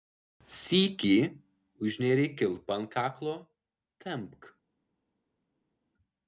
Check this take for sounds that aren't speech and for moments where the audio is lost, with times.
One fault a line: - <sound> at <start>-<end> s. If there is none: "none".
none